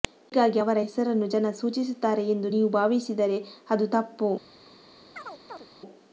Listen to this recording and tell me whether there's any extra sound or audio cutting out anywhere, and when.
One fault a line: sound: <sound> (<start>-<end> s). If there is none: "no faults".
sound: chirp (5.2-5.7 s)